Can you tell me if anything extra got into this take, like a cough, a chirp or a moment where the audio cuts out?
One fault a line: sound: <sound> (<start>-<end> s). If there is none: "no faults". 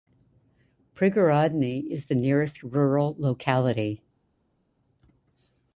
no faults